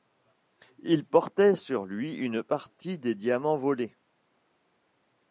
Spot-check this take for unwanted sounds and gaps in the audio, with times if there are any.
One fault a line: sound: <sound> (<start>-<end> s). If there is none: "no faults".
no faults